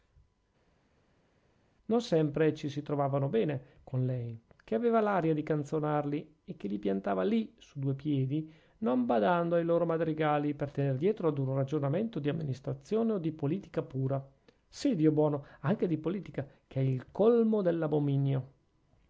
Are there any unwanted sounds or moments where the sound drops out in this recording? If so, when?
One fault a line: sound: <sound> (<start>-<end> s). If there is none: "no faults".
no faults